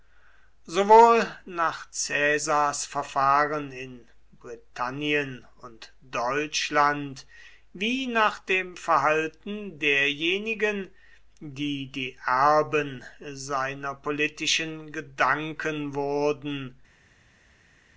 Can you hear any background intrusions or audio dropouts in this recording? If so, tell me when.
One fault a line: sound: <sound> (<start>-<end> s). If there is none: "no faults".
no faults